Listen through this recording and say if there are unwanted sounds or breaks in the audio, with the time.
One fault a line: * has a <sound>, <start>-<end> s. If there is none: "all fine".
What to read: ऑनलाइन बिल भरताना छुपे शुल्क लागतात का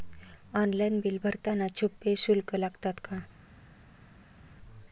all fine